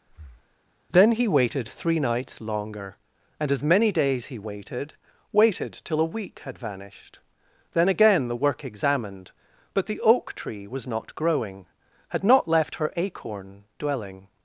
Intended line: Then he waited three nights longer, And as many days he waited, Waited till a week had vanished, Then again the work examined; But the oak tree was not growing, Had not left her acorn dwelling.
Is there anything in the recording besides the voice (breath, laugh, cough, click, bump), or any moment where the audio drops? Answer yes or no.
yes